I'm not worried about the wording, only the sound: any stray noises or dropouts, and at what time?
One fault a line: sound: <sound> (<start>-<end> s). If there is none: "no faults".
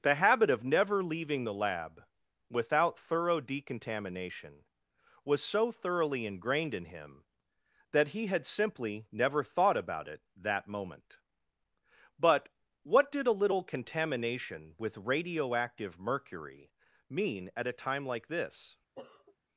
sound: sniff (18.9-19.4 s)